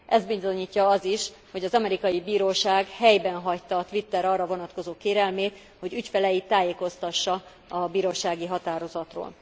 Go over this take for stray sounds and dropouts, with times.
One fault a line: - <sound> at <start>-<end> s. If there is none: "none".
none